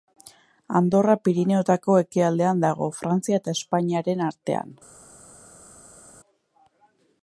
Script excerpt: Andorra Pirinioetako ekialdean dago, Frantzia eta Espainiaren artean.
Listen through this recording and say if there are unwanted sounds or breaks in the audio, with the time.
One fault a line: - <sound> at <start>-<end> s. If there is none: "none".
none